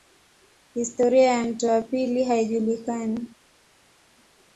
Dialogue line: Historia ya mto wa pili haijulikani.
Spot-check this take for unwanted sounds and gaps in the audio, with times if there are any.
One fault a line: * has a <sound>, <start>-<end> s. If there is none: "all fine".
all fine